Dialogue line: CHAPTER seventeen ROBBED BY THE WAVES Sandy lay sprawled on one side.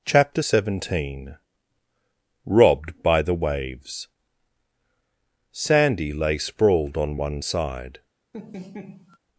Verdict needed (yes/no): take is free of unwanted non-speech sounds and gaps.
no